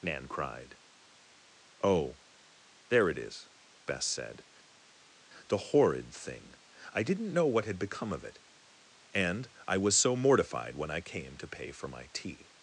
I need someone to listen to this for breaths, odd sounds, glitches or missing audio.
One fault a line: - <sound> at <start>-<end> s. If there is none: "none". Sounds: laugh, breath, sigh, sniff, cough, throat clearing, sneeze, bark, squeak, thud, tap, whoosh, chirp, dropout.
none